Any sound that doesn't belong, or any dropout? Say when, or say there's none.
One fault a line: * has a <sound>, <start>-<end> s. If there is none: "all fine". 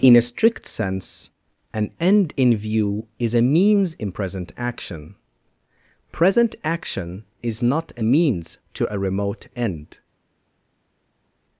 all fine